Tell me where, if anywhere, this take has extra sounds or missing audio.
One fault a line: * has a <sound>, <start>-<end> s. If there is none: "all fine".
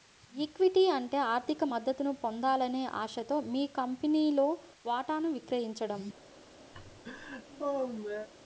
* has a laugh, 6.7-8.3 s